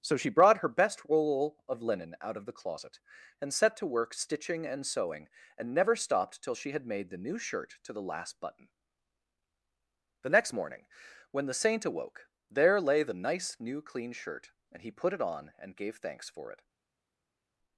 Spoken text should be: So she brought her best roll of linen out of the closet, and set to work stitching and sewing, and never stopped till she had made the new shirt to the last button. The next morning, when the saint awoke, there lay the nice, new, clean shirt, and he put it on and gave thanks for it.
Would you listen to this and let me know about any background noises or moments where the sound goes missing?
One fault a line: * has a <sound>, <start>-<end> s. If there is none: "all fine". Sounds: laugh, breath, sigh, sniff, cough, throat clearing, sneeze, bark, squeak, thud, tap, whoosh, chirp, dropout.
all fine